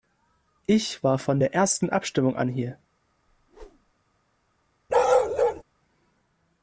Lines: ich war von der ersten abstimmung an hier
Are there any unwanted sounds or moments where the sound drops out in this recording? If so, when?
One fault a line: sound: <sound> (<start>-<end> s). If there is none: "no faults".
sound: whoosh (3.3-3.9 s)
sound: bark (4.9-5.6 s)